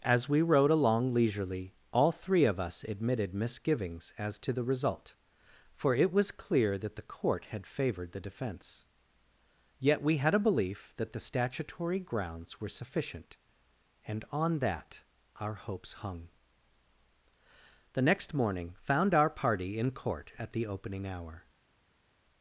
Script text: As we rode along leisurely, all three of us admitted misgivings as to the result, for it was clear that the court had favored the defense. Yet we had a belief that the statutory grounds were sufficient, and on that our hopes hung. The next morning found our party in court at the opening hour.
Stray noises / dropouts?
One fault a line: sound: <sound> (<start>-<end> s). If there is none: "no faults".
no faults